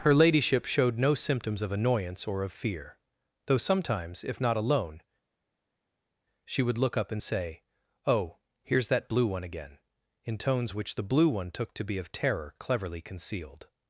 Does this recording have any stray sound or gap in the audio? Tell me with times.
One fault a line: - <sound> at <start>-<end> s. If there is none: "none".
none